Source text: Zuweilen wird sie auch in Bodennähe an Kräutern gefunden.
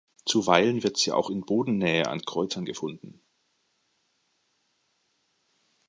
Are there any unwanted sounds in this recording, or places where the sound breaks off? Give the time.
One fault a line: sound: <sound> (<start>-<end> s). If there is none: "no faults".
no faults